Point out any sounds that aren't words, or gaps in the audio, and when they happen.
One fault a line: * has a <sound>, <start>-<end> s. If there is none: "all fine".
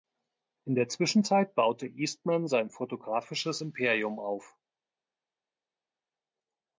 all fine